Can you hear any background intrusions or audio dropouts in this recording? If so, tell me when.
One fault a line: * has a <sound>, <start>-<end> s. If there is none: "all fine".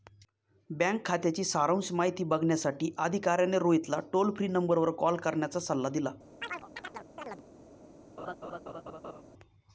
* has a chirp, 6.4-7.4 s
* has a laugh, 8.2-9.2 s